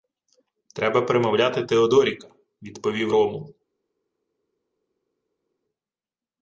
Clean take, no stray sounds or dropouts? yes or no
yes